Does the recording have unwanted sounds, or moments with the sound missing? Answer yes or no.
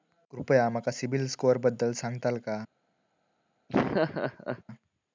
yes